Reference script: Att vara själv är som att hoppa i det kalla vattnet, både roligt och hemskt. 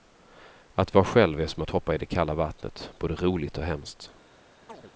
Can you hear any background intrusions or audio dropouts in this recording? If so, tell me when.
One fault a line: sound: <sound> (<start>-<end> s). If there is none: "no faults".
sound: chirp (4.7-4.9 s)